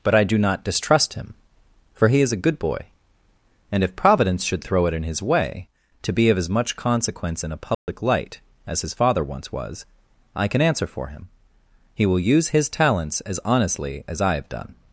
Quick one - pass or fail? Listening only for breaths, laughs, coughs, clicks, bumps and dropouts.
fail